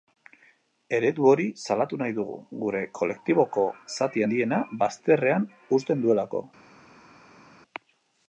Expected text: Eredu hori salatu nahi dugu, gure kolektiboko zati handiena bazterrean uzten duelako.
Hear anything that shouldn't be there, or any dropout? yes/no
no